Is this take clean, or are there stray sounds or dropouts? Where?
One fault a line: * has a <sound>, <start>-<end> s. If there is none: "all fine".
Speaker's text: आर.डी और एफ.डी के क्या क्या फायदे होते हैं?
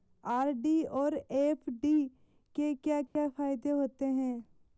* has a dropout, 3.1-3.2 s